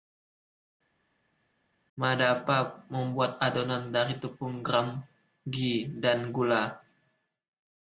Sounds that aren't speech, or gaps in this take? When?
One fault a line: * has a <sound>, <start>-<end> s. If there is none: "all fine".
all fine